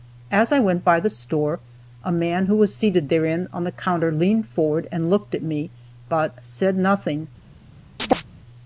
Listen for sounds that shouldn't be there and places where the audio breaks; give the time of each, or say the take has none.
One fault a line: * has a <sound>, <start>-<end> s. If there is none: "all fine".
* has a chirp, 8.0-8.3 s